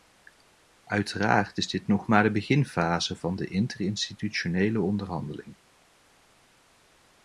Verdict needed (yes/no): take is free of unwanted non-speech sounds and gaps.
yes